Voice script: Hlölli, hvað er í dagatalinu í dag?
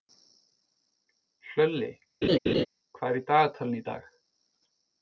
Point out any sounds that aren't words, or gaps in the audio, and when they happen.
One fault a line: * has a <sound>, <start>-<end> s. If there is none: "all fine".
* has a laugh, 2.2-2.7 s